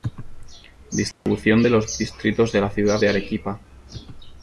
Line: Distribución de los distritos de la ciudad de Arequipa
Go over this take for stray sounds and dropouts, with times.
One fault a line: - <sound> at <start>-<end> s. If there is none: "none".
- dropout at 1.1-1.3 s